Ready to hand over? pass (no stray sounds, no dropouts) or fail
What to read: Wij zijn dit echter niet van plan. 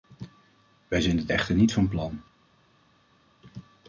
pass